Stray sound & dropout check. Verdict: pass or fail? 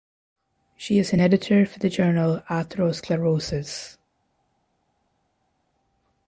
pass